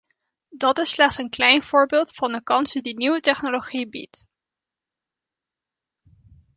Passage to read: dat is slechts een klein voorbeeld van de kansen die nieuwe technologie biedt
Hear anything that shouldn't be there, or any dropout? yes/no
no